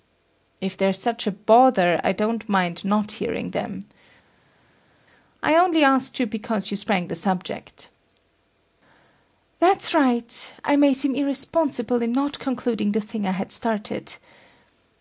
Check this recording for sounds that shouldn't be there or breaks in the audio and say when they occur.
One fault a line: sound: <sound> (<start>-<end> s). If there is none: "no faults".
no faults